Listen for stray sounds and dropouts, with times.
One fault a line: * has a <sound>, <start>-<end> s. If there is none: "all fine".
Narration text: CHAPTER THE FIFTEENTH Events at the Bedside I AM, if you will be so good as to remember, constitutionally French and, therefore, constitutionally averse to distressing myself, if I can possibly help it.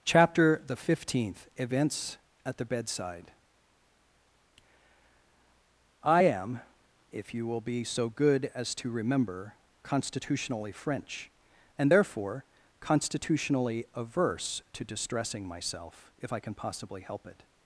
all fine